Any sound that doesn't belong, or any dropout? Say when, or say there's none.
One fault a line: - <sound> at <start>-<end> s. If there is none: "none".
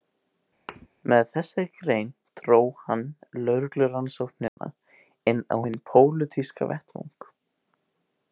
- thud at 0.7-0.9 s
- dropout at 4.5-4.6 s